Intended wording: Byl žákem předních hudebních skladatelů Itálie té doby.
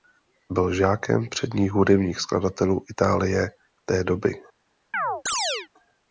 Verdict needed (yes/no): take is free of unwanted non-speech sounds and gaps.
no